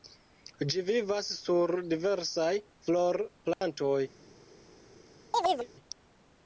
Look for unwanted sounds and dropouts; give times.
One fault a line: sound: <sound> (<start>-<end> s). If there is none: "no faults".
sound: dropout (3.5-3.6 s)
sound: chirp (5.3-5.7 s)